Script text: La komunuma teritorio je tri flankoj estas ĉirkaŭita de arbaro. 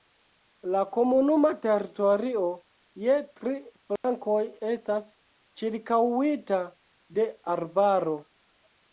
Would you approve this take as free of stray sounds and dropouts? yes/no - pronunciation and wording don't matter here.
no